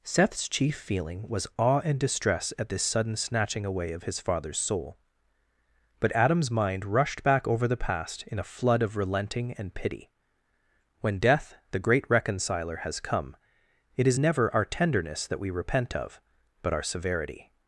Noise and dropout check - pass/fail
pass